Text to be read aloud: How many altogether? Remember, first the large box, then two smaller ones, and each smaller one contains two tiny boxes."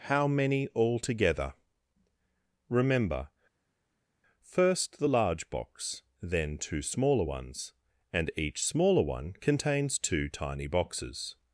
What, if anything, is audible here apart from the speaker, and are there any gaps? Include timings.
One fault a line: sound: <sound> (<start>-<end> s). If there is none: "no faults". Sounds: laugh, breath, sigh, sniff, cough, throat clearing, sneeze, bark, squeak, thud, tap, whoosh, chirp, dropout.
no faults